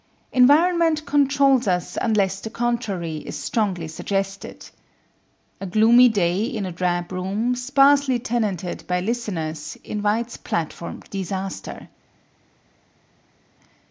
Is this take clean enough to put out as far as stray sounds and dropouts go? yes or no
yes